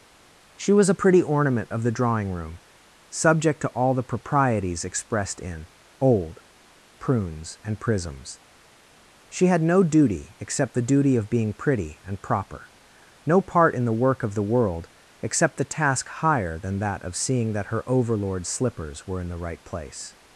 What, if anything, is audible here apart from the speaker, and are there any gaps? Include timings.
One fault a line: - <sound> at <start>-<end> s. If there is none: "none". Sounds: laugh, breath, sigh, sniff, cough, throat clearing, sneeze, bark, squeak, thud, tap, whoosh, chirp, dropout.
none